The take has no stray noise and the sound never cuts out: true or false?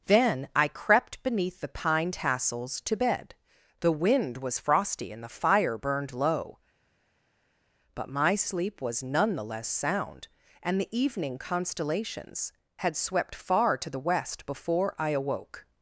true